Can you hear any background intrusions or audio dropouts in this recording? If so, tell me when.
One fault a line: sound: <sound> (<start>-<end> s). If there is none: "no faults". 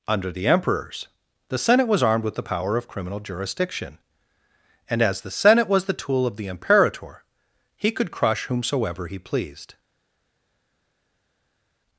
no faults